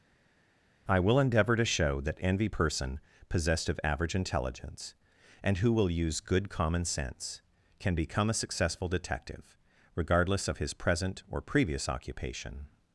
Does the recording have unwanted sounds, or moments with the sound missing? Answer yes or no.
no